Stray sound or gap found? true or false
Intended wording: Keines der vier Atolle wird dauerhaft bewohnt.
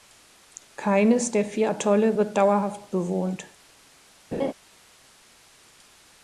true